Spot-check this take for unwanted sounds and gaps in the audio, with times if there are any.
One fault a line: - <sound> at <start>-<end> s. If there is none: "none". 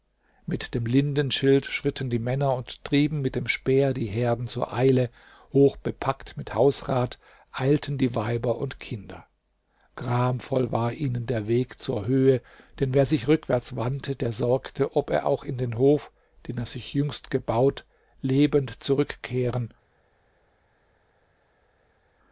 none